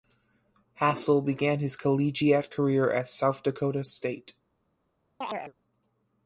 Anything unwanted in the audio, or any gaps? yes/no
yes